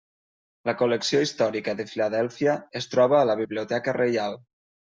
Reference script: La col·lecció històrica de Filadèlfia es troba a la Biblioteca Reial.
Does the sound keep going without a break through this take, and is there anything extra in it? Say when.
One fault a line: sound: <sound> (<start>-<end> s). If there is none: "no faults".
no faults